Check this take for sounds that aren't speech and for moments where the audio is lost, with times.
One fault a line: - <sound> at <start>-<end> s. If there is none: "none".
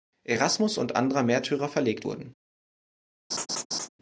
- laugh at 3.3-3.9 s